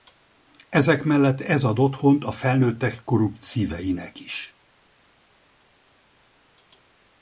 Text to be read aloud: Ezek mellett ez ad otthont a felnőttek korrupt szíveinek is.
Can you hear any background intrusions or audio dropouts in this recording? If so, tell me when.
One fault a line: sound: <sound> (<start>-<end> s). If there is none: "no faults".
no faults